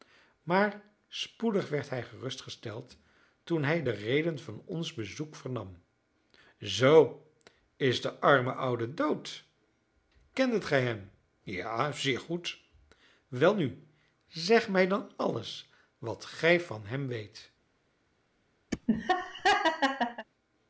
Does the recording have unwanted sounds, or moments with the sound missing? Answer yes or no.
yes